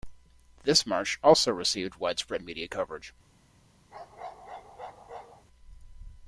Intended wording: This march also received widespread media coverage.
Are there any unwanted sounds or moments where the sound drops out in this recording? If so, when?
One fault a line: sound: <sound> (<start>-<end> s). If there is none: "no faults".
sound: bark (3.9-5.5 s)